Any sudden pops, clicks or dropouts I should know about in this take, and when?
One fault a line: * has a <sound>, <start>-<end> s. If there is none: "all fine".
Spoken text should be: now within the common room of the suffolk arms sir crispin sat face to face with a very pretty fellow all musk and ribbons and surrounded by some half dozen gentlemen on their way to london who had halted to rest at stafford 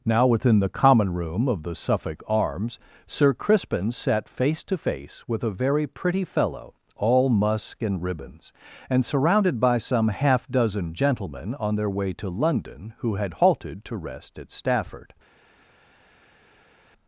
all fine